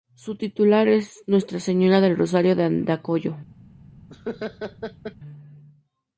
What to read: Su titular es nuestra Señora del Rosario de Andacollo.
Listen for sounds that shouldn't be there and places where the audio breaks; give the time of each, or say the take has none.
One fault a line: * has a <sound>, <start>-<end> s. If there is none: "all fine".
* has a laugh, 4.1-5.2 s